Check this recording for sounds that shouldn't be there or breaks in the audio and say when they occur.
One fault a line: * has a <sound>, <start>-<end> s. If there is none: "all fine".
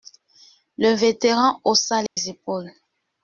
* has a dropout, 2.1-2.2 s